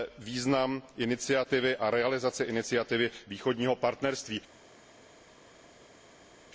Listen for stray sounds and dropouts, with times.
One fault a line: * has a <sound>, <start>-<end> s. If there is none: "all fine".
all fine